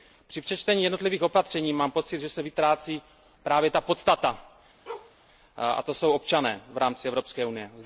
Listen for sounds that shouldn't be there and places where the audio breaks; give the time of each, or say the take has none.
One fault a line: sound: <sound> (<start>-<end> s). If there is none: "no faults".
sound: bark (4.9-5.2 s)